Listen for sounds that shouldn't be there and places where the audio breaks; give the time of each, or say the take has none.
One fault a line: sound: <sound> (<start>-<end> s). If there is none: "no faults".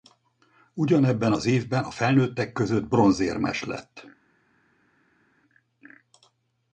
no faults